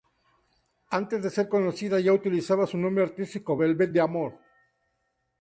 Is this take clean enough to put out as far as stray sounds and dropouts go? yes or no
yes